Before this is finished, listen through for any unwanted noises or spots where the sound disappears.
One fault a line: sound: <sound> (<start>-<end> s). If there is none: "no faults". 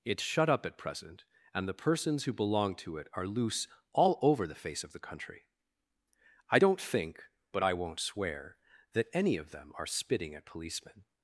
no faults